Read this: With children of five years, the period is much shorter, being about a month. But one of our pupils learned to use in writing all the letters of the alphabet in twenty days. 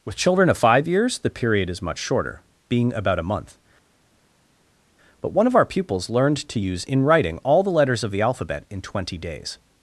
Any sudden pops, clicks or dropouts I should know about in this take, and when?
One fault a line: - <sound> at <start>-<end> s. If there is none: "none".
none